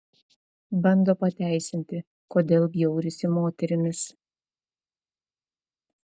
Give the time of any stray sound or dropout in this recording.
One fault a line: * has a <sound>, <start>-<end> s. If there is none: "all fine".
all fine